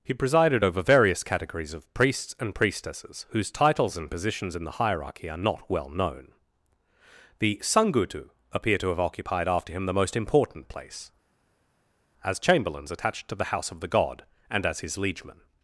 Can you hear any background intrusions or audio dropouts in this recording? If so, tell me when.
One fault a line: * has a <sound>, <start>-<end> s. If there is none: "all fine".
all fine